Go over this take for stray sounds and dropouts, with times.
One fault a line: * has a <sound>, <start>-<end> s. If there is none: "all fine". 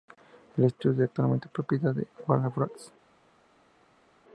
all fine